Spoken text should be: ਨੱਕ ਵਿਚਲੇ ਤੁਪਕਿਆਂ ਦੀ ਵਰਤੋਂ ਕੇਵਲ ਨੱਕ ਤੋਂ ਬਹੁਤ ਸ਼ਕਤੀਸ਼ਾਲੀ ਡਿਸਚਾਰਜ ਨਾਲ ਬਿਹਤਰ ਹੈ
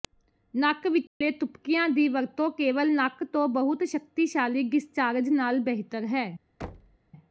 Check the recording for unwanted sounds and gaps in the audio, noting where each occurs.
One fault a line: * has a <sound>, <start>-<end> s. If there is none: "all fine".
* has a dropout, 1.1-1.2 s
* has a thud, 6.6-7.0 s